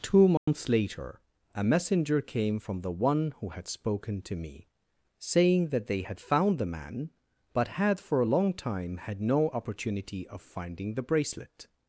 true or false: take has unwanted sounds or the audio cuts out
true